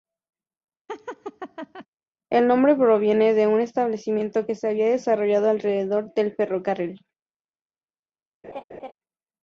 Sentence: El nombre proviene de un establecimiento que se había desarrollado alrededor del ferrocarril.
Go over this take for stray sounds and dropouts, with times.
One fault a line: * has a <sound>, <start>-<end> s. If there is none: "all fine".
* has a laugh, 0.9-1.9 s
* has a laugh, 8.4-8.9 s